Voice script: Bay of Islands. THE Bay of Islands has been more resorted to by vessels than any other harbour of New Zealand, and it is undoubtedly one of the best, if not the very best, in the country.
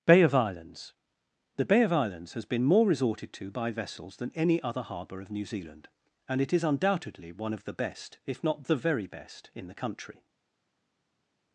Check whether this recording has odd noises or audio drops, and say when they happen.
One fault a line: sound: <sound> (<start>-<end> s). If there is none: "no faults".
no faults